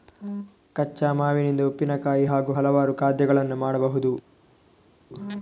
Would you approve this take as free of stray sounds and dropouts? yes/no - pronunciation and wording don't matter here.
yes